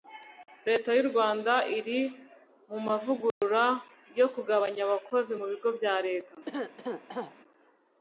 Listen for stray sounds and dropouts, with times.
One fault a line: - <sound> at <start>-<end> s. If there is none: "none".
- dropout at 3.3-3.4 s
- cough at 6.5-7.4 s